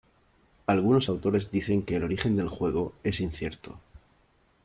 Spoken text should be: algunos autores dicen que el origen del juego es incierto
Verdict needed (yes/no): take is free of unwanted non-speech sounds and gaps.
yes